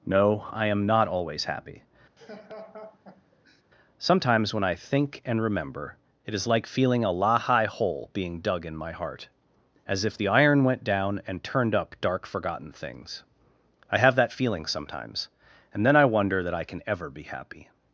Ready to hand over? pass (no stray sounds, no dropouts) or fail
fail